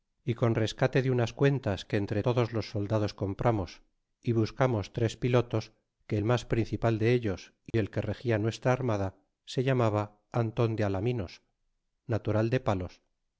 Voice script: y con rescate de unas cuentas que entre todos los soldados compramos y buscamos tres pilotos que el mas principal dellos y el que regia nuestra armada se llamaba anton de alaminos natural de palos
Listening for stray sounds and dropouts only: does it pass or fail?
fail